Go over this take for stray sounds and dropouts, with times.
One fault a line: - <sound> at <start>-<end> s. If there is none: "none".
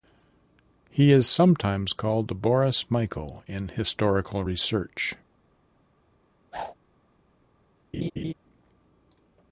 - whoosh at 6.5-6.7 s
- laugh at 7.9-8.3 s